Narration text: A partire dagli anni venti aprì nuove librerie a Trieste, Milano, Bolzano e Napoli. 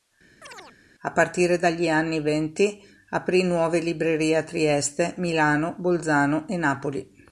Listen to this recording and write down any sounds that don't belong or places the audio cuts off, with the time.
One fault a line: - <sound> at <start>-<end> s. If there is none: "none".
- chirp at 0.4-0.8 s